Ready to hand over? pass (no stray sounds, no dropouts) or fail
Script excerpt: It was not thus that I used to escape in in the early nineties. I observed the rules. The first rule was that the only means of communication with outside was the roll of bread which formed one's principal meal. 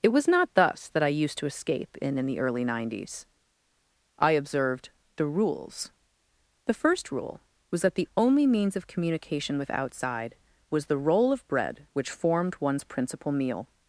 pass